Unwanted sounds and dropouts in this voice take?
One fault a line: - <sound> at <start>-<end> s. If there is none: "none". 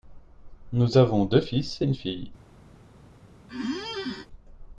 - squeak at 3.5-4.3 s